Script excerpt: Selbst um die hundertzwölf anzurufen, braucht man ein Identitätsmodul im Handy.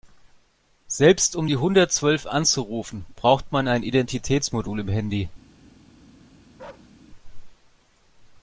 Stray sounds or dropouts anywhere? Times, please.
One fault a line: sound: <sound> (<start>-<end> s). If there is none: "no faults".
sound: bark (6.6-6.9 s)